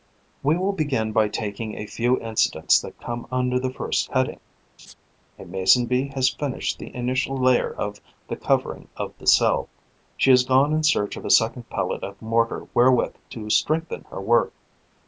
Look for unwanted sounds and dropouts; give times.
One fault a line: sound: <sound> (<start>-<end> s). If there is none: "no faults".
sound: laugh (4.8-4.9 s)